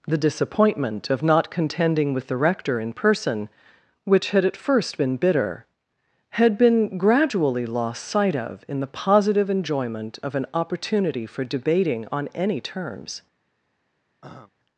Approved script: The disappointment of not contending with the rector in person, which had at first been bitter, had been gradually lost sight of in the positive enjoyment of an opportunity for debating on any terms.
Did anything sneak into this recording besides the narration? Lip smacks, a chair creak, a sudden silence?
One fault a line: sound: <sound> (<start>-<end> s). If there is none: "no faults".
sound: throat clearing (14.2-14.5 s)